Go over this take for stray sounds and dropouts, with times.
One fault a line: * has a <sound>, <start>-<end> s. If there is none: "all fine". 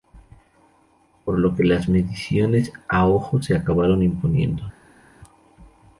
all fine